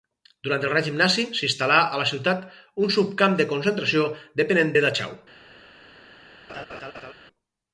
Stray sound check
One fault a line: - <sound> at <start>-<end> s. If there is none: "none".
- laugh at 6.5-7.1 s